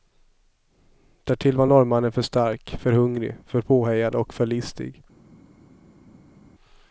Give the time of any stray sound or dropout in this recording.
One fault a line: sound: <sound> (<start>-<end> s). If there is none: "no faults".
no faults